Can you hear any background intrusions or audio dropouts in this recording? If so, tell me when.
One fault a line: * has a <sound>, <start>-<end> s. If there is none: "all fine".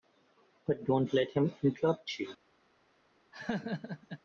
* has a laugh, 3.3-4.2 s